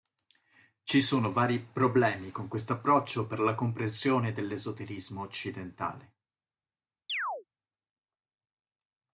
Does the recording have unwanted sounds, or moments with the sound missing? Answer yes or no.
yes